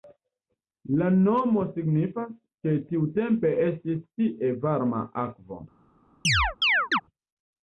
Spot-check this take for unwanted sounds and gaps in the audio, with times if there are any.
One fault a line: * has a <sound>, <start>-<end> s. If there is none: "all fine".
* has a chirp, 6.2-7.0 s